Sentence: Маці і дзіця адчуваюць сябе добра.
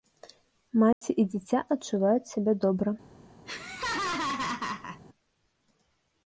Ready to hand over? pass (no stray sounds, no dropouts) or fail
fail